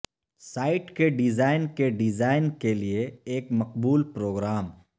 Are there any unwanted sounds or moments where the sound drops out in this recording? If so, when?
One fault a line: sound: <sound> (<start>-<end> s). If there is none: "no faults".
no faults